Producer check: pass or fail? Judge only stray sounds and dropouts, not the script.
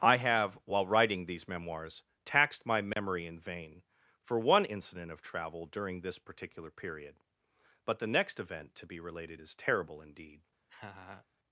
fail